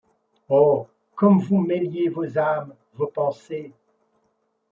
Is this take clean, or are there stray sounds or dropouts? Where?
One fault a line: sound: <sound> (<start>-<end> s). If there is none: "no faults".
no faults